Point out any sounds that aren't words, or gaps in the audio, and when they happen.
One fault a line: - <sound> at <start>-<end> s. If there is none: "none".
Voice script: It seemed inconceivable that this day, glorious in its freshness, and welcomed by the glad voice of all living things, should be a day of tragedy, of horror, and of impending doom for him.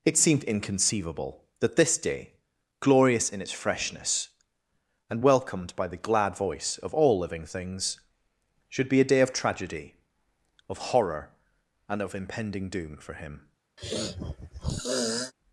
- sniff at 13.8-15.3 s